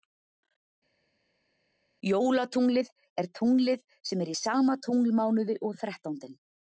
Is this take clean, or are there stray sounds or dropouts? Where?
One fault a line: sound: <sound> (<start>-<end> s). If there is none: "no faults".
no faults